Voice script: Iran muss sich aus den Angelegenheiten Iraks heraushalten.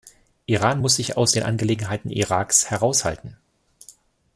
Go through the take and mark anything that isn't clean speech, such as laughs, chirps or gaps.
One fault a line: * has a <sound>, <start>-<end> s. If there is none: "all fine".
all fine